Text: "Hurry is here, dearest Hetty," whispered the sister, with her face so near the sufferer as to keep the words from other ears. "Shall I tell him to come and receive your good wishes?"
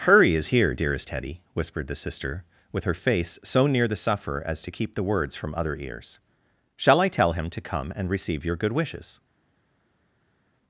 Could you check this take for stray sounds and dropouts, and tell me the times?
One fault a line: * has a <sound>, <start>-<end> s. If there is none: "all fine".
all fine